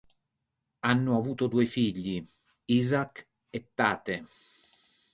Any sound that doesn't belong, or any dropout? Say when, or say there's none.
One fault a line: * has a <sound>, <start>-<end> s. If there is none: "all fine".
all fine